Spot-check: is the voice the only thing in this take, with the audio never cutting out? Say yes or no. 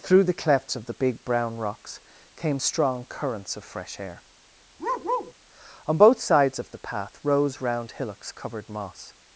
no